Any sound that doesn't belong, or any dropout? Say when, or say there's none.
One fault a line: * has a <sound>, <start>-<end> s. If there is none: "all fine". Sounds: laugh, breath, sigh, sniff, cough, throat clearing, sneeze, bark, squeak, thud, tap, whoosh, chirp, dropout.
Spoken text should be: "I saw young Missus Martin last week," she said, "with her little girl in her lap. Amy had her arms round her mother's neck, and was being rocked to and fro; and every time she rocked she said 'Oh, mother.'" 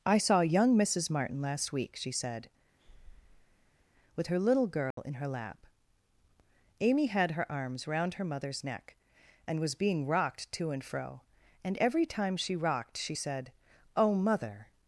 * has a breath, 2.8-3.9 s
* has a dropout, 4.9-5.0 s